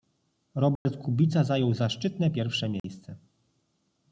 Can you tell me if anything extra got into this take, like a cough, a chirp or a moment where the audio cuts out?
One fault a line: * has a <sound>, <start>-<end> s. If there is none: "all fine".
* has a dropout, 0.8-0.9 s
* has a dropout, 2.8-2.8 s